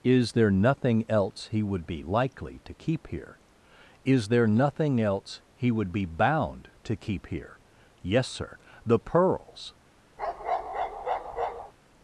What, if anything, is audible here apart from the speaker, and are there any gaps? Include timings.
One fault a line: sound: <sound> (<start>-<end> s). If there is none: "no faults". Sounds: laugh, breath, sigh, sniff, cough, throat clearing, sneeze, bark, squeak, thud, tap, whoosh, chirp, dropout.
sound: bark (10.2-11.7 s)